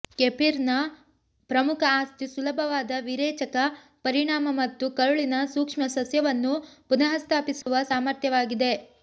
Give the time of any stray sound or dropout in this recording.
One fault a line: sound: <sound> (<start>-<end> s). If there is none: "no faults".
sound: dropout (7.6-7.7 s)